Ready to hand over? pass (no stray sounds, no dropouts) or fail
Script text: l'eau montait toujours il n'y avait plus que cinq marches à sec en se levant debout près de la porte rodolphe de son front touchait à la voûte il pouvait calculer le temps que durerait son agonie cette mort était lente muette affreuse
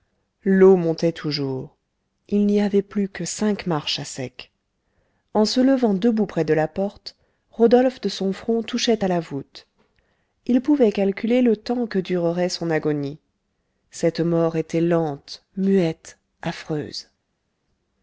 pass